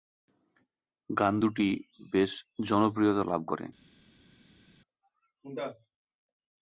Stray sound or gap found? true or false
false